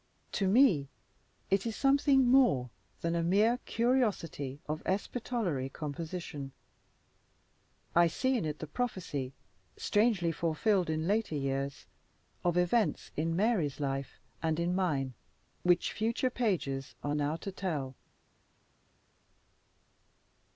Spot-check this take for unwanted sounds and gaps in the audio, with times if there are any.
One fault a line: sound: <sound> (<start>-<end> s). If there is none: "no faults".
no faults